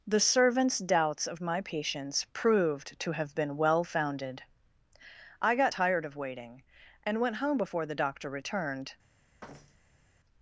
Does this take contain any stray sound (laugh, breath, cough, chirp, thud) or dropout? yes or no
yes